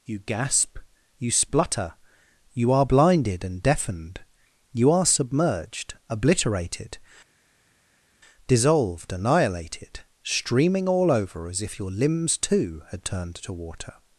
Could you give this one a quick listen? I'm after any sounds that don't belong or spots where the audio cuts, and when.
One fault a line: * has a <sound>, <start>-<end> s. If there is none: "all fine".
all fine